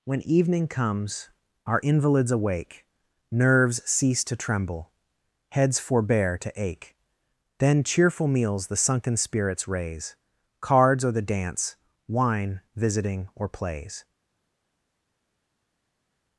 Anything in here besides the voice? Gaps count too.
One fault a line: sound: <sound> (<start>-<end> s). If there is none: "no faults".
no faults